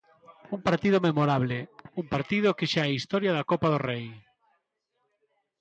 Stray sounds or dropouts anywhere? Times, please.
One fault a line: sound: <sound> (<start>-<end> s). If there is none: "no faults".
no faults